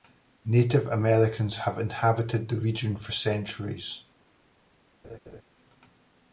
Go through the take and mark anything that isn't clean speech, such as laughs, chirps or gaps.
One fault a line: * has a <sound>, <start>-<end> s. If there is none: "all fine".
* has a laugh, 5.0-5.4 s